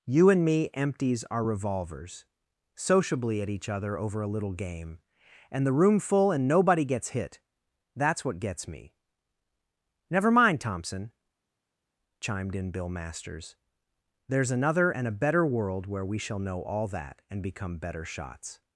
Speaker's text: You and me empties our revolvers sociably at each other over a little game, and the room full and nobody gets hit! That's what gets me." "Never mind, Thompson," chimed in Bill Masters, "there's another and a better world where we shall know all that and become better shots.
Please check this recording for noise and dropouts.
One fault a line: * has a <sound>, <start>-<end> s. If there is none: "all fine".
all fine